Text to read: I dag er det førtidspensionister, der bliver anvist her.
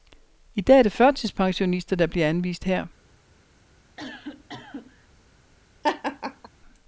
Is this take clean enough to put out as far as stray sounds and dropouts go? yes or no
no